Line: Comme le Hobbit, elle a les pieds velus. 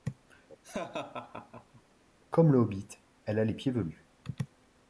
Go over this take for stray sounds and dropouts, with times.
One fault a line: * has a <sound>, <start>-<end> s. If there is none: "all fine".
* has a laugh, 0.6-1.8 s